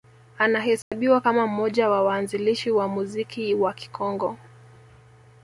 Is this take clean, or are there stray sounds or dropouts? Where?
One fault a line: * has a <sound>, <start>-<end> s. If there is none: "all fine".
* has a dropout, 0.8-0.9 s